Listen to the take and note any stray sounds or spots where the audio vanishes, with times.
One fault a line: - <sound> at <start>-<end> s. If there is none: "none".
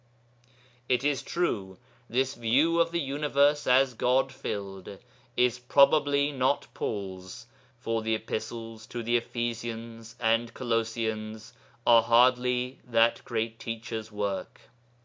none